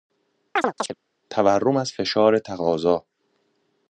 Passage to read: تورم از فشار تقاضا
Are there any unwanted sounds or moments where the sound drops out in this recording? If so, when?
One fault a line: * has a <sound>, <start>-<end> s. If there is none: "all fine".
* has a chirp, 0.6-0.9 s